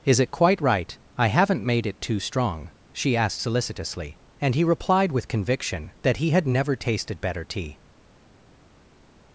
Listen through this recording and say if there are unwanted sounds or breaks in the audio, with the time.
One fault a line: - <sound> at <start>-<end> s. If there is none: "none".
none